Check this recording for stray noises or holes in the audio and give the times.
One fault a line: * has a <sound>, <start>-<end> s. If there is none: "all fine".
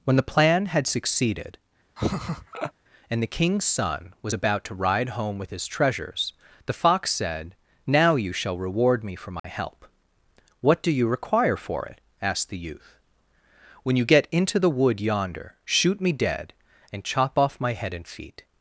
* has a laugh, 2.0-2.7 s
* has a dropout, 9.4-9.4 s